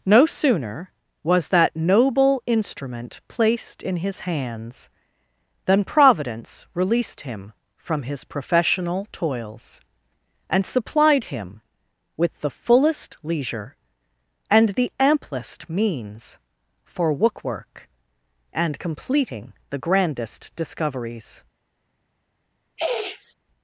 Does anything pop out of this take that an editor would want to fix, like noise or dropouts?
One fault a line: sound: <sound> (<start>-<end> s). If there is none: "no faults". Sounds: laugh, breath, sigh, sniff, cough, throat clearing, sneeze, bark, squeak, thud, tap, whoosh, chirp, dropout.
sound: sniff (22.8-23.3 s)